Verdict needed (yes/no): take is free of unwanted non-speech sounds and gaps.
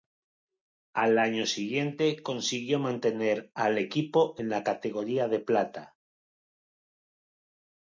yes